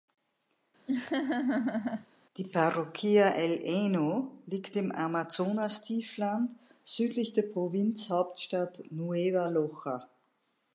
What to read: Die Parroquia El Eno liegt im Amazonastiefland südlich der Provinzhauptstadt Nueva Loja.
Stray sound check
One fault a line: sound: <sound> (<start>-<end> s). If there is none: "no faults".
sound: laugh (0.9-2.1 s)